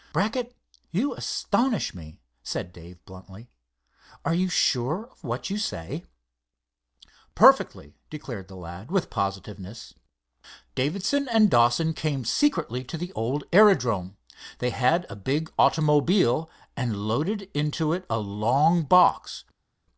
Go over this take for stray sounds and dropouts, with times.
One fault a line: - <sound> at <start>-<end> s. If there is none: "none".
none